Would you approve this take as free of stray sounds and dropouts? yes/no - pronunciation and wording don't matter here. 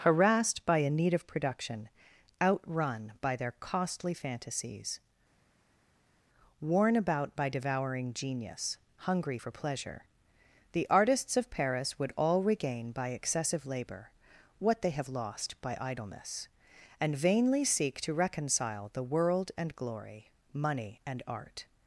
yes